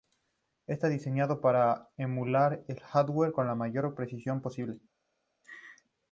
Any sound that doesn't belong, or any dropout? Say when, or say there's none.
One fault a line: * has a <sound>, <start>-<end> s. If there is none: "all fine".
* has a laugh, 5.4-5.8 s